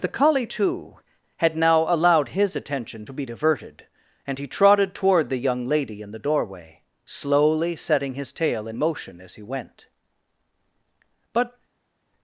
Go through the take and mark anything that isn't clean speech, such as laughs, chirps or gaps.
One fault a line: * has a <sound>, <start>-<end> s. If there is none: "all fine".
all fine